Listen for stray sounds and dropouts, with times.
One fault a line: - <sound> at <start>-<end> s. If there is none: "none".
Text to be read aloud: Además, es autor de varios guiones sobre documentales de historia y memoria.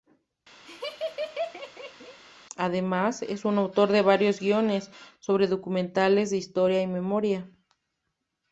- laugh at 0.7-2.2 s